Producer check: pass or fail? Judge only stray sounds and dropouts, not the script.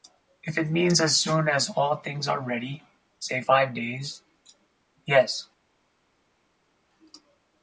pass